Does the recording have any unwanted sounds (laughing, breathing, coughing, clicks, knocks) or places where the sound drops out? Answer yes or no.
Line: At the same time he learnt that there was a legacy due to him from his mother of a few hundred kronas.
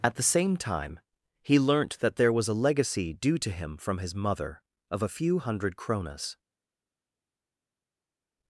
no